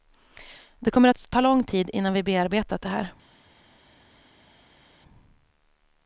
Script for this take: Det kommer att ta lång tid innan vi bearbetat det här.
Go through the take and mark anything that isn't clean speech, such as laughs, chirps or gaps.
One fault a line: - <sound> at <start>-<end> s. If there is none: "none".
none